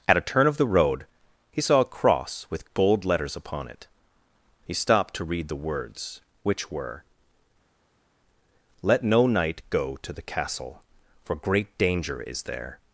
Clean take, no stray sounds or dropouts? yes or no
yes